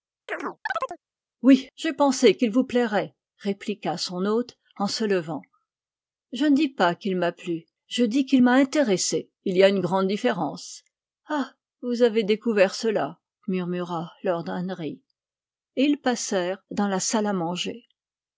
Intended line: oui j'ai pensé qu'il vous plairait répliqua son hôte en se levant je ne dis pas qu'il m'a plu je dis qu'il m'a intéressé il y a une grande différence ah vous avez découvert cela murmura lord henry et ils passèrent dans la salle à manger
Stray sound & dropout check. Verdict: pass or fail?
fail